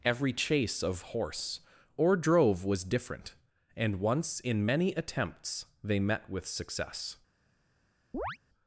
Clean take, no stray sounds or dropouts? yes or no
no